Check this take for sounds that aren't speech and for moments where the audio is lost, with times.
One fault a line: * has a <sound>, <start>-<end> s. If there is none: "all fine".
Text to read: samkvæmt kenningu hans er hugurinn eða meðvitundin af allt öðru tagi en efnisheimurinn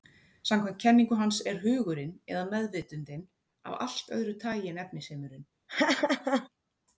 * has a laugh, 5.7-6.5 s